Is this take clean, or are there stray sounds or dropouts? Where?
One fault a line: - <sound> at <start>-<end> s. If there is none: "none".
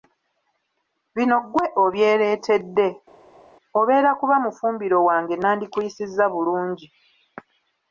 none